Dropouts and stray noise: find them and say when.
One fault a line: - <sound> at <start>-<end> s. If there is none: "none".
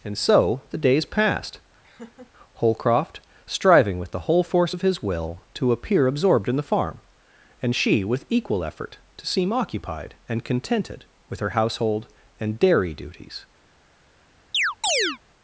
- laugh at 1.8-2.3 s
- chirp at 14.5-15.2 s